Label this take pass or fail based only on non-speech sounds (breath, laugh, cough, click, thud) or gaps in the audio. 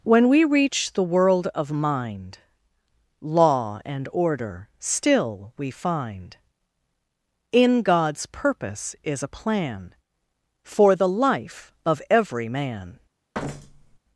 fail